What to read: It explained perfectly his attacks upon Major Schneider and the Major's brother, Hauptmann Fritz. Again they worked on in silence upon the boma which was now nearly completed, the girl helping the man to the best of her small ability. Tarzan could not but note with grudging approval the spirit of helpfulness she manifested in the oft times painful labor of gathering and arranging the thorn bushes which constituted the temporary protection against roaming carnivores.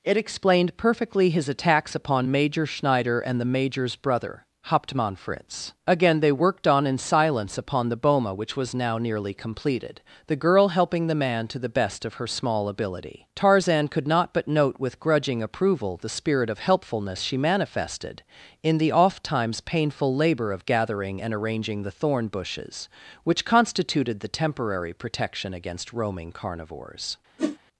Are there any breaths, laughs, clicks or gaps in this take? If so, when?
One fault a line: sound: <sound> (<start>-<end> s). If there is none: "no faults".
sound: whoosh (27.4-27.6 s)